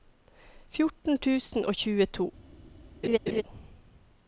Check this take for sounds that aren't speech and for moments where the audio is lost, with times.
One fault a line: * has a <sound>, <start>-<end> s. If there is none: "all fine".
* has a laugh, 3.0-3.4 s